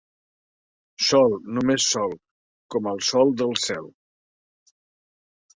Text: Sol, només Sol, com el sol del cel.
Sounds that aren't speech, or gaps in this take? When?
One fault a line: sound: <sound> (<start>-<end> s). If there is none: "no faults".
no faults